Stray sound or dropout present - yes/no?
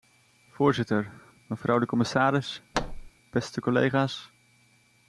yes